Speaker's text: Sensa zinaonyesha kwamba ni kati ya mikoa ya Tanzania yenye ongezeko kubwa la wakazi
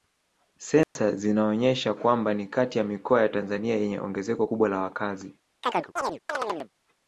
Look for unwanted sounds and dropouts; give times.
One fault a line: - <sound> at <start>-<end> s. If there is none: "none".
- dropout at 0.8-1.0 s
- chirp at 5.6-6.7 s